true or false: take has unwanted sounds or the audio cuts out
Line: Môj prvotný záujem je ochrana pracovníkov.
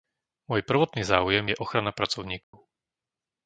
true